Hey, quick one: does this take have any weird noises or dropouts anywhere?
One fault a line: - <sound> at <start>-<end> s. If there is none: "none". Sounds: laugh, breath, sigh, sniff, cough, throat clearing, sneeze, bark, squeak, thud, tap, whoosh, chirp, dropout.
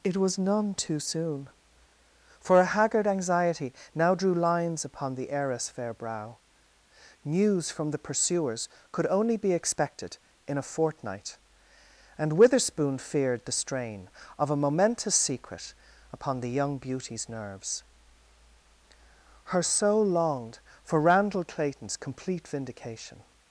none